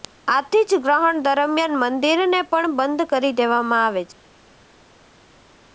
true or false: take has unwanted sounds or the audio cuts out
false